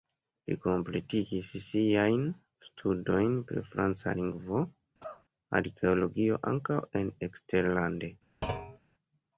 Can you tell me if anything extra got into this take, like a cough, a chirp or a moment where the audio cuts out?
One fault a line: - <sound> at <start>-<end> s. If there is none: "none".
- cough at 5.0-5.2 s
- thud at 8.4-8.8 s